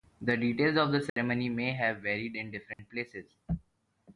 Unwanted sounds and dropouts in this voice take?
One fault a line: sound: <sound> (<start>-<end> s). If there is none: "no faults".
sound: dropout (1.1-1.2 s)
sound: dropout (2.7-2.8 s)